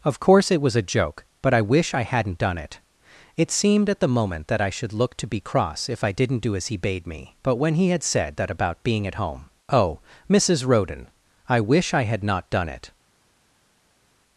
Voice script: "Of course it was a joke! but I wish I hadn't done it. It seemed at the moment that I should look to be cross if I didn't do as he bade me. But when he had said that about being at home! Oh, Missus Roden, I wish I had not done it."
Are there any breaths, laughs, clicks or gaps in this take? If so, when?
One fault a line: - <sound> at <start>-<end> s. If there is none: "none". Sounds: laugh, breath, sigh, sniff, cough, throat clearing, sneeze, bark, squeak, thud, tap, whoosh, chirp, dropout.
none